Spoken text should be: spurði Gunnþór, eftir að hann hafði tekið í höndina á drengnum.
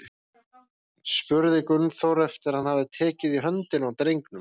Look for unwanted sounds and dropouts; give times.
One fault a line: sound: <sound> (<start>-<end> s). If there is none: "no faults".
no faults